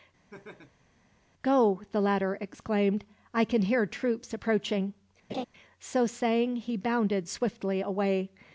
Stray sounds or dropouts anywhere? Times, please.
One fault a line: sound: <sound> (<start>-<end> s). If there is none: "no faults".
sound: laugh (0.3-0.9 s)
sound: laugh (5.3-5.5 s)